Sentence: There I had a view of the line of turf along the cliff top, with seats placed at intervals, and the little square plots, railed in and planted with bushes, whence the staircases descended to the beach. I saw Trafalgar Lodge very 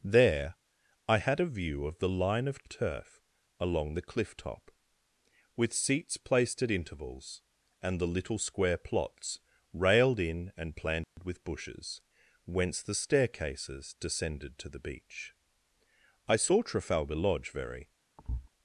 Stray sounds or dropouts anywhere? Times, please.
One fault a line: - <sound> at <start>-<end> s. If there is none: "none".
- dropout at 11.0-11.2 s
- thud at 18.2-18.5 s